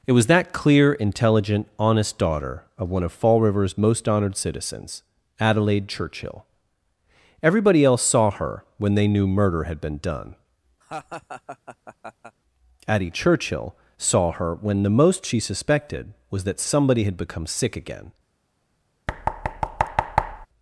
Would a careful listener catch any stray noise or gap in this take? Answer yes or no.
yes